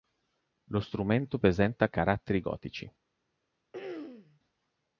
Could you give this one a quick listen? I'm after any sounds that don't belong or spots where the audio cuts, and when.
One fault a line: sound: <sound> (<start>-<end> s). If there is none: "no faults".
sound: throat clearing (3.7-4.4 s)